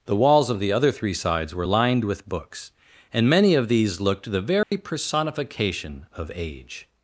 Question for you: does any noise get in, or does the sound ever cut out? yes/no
yes